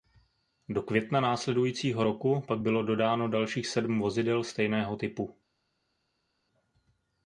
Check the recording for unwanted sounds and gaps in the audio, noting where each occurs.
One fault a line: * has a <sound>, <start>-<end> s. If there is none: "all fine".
all fine